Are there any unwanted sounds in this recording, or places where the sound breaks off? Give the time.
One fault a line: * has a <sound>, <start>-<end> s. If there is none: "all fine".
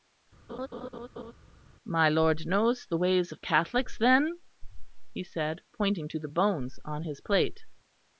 * has a laugh, 0.5-1.3 s